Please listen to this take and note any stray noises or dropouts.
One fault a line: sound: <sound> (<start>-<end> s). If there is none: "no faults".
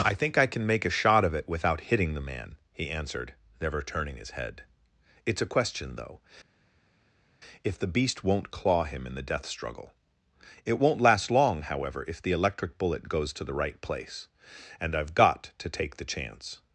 no faults